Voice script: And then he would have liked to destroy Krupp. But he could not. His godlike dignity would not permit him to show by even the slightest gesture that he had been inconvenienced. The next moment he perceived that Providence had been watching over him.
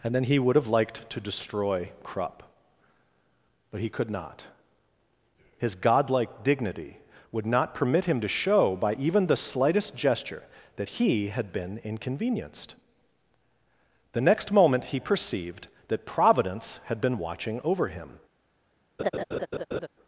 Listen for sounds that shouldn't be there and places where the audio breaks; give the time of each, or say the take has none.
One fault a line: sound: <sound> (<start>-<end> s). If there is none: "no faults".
sound: laugh (19.0-19.9 s)